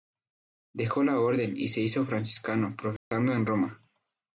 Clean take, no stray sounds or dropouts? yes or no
no